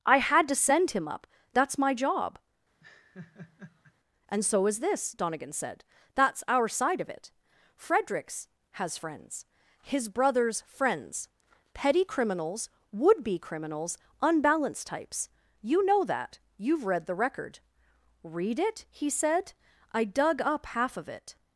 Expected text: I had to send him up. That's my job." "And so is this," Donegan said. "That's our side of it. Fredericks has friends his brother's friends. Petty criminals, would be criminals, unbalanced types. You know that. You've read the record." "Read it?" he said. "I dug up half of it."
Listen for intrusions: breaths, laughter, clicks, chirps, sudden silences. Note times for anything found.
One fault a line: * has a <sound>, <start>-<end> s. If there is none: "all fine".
* has a laugh, 2.8-3.9 s